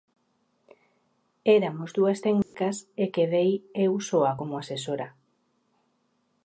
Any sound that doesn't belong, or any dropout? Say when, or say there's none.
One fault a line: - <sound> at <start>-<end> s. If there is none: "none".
- dropout at 2.4-2.5 s